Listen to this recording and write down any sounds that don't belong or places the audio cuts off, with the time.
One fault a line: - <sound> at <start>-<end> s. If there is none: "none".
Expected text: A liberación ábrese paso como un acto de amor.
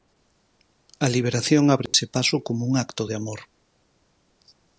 - dropout at 1.9-1.9 s